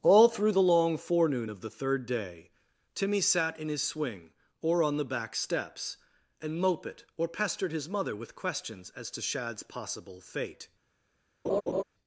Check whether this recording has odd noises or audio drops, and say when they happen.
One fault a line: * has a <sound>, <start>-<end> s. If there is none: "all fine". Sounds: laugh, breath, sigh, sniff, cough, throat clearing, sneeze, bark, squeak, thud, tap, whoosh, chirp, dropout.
* has a laugh, 11.4-11.8 s